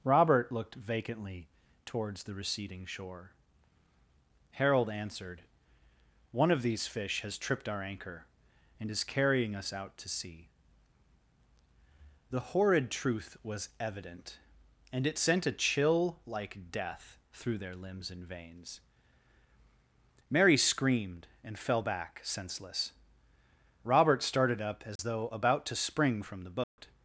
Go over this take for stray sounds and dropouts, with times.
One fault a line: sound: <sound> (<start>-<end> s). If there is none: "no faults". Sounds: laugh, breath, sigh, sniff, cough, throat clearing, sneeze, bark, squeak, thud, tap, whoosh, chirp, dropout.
sound: dropout (25.0-25.0 s)
sound: dropout (26.6-26.8 s)